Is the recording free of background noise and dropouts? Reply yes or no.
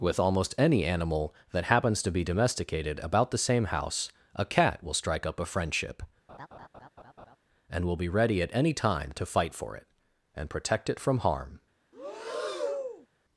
no